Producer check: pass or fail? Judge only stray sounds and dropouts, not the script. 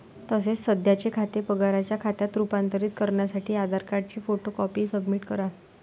pass